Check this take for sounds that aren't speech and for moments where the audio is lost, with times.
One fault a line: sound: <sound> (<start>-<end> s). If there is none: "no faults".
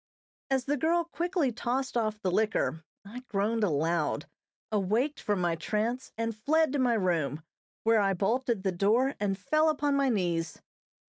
no faults